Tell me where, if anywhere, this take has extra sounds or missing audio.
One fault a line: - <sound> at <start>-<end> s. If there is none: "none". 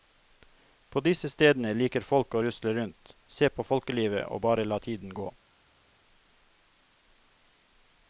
none